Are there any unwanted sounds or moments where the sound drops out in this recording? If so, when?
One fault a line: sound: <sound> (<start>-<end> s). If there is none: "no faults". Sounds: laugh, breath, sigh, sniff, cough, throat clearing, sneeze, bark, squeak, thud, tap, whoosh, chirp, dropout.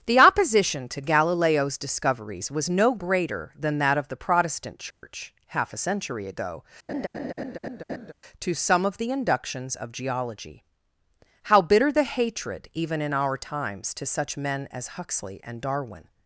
sound: dropout (4.9-5.0 s)
sound: laugh (6.9-8.1 s)